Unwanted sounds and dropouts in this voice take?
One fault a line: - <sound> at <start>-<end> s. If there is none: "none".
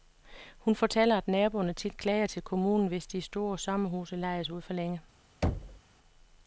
- thud at 5.4-5.8 s